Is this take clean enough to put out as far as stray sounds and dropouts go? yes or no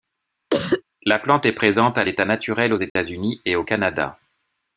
no